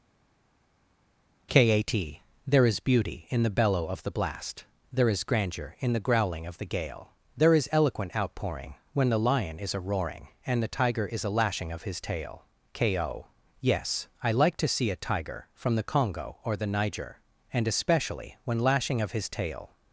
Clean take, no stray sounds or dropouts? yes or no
yes